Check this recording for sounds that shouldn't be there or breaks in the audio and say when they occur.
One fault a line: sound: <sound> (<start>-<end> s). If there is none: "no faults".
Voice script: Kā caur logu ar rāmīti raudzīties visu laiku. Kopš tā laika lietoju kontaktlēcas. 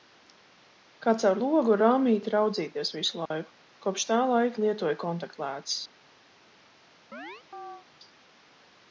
sound: dropout (3.3-3.3 s)
sound: chirp (7.1-7.9 s)